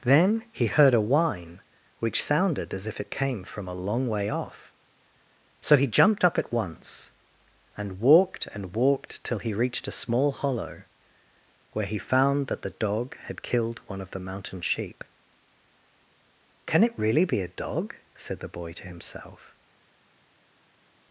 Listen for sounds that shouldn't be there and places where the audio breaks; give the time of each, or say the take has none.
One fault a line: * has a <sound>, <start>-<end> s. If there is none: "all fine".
all fine